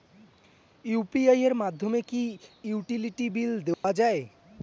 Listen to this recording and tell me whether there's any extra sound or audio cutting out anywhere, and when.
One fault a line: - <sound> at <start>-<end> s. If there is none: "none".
- dropout at 3.7-3.8 s